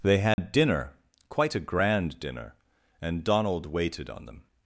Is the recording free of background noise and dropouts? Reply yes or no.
no